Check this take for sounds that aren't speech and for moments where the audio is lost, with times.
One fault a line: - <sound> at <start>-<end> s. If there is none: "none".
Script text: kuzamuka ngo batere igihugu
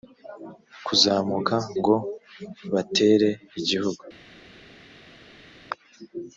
none